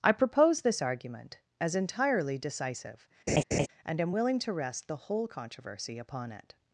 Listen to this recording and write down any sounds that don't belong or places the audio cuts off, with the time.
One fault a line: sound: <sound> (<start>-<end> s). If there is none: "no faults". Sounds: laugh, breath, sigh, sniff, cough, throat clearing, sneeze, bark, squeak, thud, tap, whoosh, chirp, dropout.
sound: laugh (3.3-3.7 s)